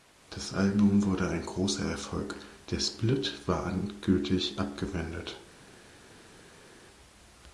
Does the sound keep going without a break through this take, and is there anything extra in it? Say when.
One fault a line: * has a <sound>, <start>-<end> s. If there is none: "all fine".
all fine